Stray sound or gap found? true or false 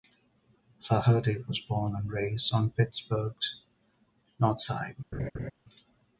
true